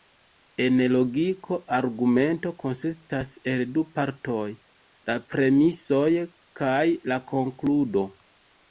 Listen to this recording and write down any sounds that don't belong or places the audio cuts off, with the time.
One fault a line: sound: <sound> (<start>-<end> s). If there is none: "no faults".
no faults